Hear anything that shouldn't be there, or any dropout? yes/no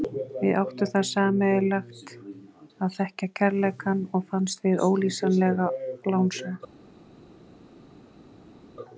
no